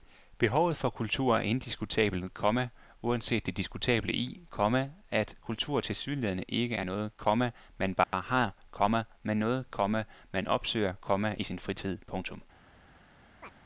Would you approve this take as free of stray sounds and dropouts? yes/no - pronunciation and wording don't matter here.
no